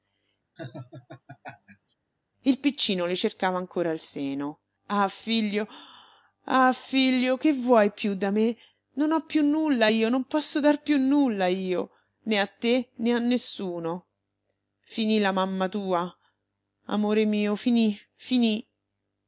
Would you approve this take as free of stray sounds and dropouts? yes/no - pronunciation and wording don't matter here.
no